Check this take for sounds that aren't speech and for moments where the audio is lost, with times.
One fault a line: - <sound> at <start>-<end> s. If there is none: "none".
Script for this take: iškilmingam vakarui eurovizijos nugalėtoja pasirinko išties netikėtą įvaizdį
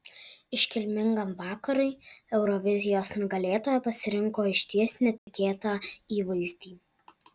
- dropout at 5.2-5.3 s